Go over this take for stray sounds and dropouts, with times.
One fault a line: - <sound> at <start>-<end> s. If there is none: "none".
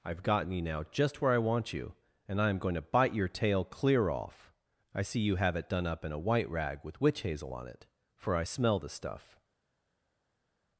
none